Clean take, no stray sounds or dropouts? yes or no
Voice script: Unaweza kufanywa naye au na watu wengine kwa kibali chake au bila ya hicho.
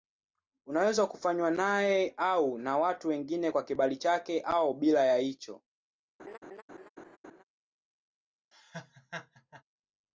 no